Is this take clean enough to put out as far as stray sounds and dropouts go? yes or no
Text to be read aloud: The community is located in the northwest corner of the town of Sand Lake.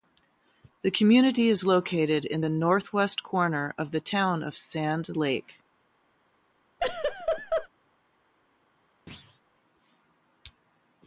no